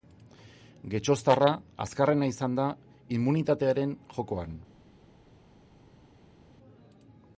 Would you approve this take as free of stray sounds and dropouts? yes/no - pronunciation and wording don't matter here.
yes